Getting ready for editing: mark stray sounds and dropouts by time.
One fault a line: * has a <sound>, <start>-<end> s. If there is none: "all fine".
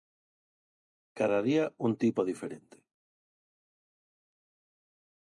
all fine